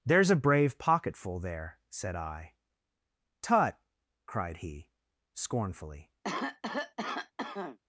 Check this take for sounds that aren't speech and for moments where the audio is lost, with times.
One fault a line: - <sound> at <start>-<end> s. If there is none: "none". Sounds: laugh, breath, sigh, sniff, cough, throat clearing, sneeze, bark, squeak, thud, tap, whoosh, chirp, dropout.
- cough at 6.2-7.8 s